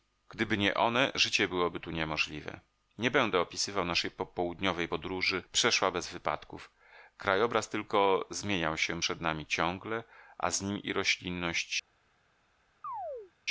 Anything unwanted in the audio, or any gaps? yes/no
yes